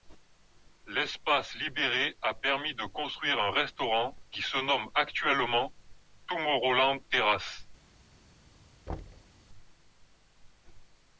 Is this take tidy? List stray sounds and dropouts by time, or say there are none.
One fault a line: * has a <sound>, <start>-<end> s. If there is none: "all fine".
* has a thud, 8.9-9.3 s